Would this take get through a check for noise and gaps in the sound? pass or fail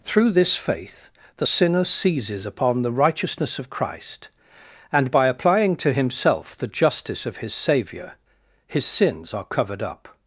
pass